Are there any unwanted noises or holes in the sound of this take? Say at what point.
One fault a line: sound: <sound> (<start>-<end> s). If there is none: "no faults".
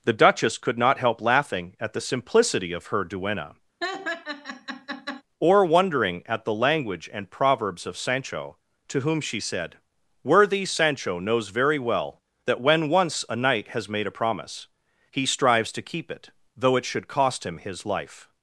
sound: laugh (3.8-5.2 s)